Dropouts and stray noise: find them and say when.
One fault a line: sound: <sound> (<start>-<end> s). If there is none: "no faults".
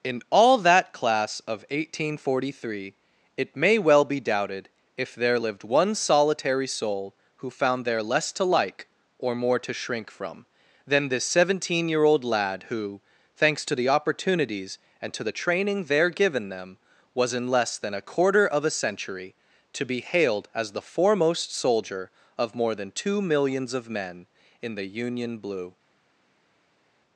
no faults